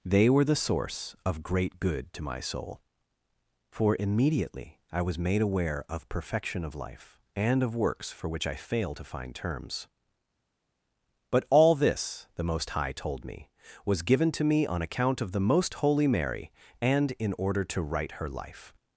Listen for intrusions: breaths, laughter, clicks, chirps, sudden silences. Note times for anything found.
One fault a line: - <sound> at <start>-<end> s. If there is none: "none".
none